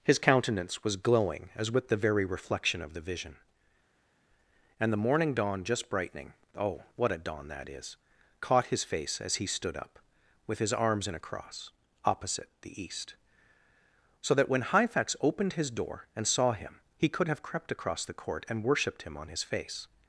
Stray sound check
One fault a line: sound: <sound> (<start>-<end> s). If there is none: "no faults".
no faults